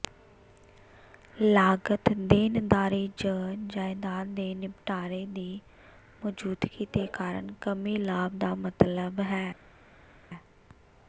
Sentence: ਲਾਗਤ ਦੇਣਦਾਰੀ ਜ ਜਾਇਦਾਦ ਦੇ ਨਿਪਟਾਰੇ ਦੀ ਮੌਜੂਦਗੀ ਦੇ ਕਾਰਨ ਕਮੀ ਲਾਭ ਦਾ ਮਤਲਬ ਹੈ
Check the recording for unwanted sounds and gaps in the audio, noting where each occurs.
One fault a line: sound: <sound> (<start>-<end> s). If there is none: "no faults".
no faults